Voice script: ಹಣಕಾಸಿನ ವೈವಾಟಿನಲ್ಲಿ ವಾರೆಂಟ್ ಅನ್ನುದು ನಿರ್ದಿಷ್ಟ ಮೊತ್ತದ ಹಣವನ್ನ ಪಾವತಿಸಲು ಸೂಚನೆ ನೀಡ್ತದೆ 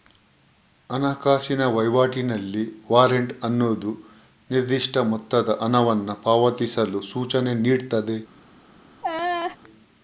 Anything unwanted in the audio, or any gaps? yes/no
yes